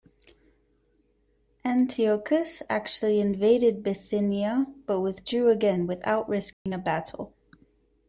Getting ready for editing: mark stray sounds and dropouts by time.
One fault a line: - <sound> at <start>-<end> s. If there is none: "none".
- dropout at 6.5-6.7 s